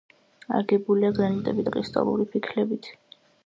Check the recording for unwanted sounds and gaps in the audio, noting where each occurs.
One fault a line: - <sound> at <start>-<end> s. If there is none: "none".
none